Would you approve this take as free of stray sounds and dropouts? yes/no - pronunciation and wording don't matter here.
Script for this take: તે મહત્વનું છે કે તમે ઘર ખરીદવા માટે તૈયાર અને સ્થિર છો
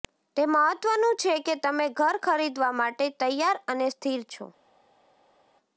yes